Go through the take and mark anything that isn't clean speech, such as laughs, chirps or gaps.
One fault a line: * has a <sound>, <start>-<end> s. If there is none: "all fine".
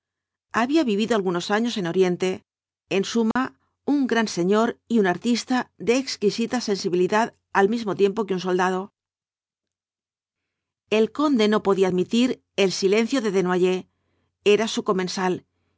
* has a dropout, 3.3-3.4 s